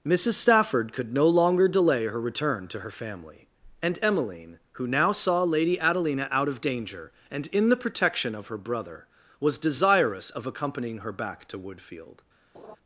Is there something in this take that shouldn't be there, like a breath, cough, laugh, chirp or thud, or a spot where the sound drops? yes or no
yes